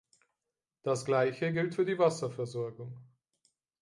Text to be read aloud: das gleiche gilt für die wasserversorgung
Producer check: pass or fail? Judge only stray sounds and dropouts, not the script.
pass